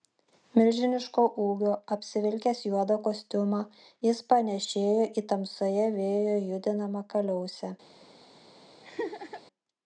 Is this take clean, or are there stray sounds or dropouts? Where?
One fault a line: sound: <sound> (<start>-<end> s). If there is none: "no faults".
sound: laugh (8.8-9.4 s)